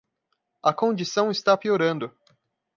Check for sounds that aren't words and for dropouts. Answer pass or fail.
pass